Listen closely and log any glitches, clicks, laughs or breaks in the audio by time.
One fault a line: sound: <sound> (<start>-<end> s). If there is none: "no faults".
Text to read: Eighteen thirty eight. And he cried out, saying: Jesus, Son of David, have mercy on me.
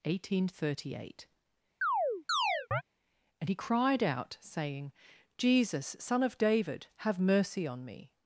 sound: chirp (1.8-2.8 s)